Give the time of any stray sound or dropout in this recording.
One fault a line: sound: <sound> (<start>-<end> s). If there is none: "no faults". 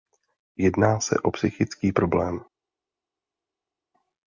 no faults